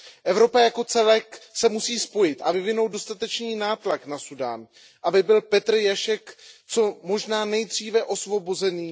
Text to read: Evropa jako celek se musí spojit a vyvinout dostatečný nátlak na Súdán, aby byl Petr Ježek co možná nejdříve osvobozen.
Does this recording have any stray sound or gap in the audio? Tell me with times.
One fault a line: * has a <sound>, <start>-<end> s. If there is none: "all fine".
all fine